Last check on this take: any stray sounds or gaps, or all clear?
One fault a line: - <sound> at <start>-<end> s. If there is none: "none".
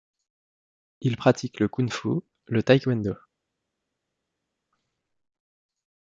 none